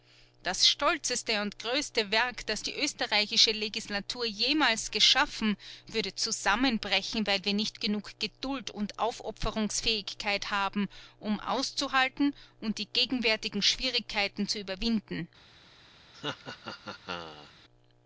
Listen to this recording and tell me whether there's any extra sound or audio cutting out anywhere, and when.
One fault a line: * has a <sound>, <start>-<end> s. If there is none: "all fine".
* has a laugh, 16.1-17.5 s